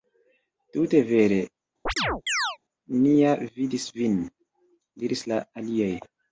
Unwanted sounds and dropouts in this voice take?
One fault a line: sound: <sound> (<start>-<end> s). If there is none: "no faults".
sound: chirp (1.9-2.6 s)